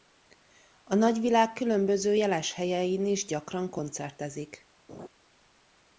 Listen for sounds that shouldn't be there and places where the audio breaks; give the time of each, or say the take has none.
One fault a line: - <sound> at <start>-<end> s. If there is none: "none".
- laugh at 4.9-5.1 s